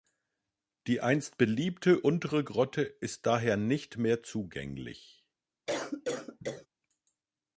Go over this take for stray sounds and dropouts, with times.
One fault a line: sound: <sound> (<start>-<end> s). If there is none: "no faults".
sound: cough (5.7-6.7 s)